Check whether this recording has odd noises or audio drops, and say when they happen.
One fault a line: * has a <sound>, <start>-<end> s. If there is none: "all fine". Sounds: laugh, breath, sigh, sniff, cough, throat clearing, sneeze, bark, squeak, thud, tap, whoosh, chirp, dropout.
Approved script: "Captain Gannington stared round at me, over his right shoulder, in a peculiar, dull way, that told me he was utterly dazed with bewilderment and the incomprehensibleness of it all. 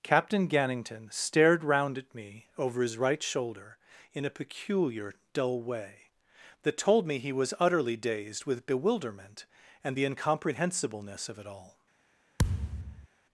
* has a thud, 12.4-13.1 s